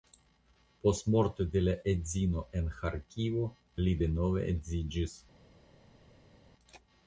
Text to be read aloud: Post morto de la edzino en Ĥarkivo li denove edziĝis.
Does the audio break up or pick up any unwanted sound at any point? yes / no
no